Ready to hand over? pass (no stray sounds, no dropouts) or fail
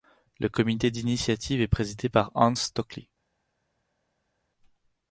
pass